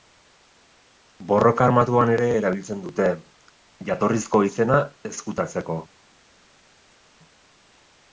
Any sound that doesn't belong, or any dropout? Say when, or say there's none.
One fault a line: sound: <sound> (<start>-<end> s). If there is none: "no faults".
no faults